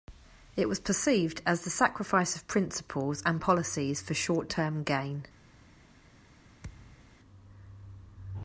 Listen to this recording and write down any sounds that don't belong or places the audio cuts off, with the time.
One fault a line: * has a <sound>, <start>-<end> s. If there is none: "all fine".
* has a thud, 6.6-7.2 s